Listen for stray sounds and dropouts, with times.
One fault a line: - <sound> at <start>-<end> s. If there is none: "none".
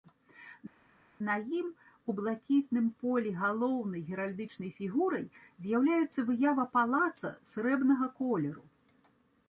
none